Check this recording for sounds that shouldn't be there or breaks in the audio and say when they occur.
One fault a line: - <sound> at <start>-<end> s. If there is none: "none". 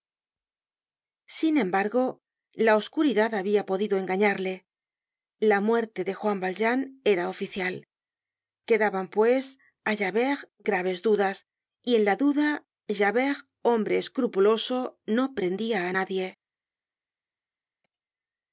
none